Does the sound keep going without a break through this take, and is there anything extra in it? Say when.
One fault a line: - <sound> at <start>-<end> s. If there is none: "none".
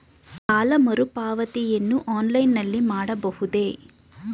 - dropout at 0.4-0.5 s